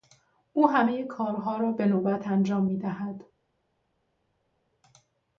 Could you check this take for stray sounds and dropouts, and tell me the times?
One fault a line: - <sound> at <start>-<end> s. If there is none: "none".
none